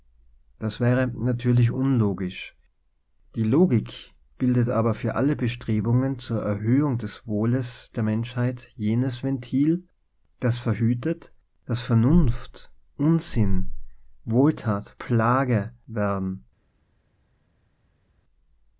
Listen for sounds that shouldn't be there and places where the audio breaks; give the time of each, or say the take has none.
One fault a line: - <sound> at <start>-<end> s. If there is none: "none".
none